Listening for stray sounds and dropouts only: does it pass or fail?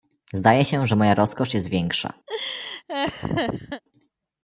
fail